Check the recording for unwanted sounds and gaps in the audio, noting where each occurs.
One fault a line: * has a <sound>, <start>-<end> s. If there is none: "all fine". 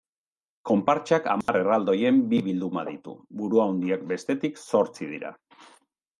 * has a dropout, 1.4-1.5 s